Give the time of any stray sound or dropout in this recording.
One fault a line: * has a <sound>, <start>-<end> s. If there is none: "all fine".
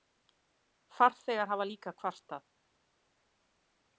all fine